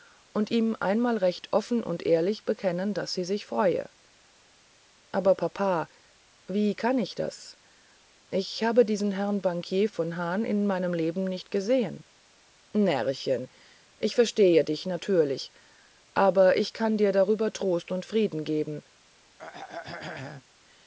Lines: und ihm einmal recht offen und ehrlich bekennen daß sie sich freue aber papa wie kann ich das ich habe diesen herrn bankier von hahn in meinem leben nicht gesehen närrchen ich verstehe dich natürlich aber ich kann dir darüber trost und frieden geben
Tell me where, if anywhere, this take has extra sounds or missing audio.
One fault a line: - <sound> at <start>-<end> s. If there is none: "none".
- throat clearing at 19.4-20.4 s